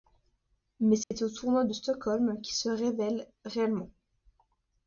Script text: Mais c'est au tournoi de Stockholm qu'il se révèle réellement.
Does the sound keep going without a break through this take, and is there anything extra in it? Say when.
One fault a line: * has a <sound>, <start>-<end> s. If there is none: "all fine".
* has a dropout, 1.0-1.1 s